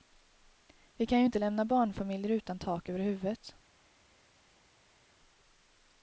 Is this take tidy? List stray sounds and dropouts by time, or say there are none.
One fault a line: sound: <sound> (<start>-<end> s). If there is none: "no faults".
no faults